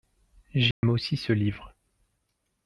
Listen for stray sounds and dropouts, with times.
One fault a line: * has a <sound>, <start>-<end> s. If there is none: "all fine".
* has a dropout, 0.7-0.8 s